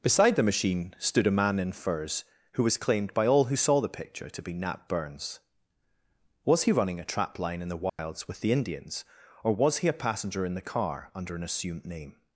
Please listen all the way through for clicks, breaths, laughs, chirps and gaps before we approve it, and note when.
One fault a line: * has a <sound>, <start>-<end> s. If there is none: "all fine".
* has a dropout, 7.9-8.0 s